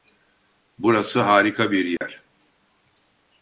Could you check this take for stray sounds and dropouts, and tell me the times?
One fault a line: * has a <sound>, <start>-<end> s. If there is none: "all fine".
* has a dropout, 2.0-2.0 s